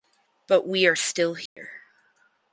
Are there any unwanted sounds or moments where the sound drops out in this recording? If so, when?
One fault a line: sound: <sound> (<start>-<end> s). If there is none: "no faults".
sound: dropout (1.5-1.6 s)